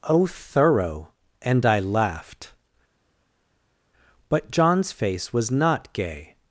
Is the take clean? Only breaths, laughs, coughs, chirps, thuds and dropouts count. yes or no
yes